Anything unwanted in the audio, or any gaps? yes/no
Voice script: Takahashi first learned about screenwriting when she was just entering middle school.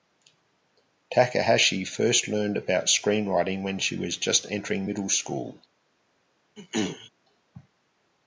yes